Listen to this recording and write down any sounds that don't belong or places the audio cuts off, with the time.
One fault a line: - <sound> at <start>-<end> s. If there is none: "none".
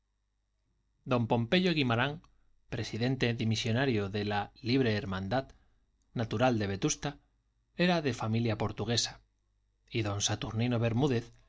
none